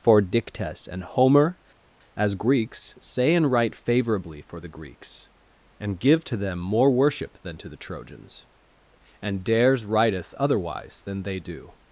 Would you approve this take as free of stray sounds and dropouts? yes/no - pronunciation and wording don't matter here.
yes